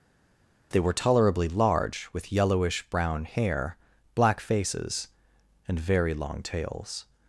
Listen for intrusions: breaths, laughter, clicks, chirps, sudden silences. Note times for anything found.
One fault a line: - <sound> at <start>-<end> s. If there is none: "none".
none